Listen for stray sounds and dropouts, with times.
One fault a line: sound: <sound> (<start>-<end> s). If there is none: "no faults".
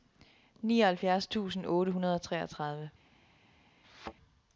sound: thud (3.8-4.1 s)